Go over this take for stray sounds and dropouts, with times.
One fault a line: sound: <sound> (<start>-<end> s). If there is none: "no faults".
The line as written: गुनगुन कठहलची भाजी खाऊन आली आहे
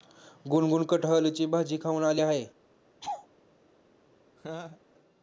sound: laugh (3.0-3.3 s)
sound: laugh (4.4-4.8 s)